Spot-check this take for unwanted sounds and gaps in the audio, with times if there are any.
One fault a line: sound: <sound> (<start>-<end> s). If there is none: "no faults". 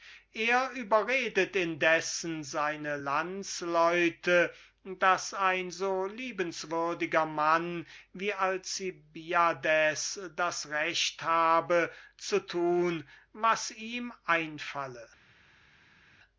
no faults